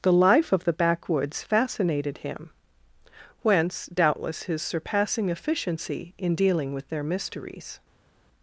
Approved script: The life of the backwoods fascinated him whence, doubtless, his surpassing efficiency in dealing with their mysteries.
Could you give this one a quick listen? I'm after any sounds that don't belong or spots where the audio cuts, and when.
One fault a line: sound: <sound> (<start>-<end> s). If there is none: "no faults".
no faults